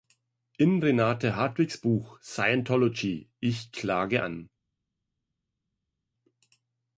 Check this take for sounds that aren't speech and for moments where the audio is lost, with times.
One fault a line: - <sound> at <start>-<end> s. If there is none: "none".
none